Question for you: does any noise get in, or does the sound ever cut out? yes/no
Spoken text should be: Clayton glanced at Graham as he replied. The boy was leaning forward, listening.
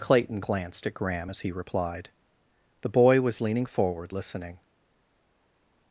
no